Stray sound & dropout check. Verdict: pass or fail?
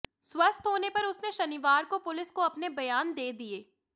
pass